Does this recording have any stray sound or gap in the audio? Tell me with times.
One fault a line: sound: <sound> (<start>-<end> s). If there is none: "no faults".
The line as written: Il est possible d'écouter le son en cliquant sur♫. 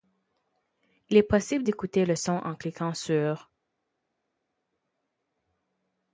no faults